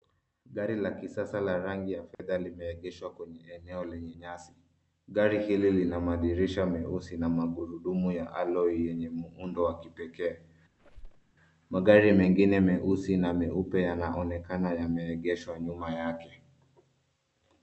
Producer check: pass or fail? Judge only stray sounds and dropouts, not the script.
fail